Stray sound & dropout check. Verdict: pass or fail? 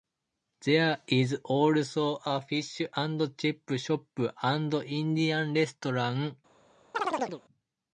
fail